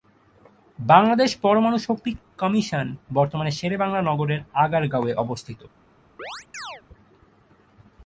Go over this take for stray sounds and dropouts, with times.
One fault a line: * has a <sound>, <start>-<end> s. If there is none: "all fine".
* has a chirp, 6.2-6.8 s